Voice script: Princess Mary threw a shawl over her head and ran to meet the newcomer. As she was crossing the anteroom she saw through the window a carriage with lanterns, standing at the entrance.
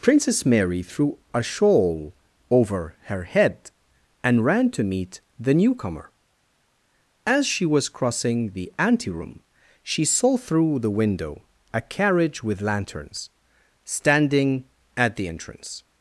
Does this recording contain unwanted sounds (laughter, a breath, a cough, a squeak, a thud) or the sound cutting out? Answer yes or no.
no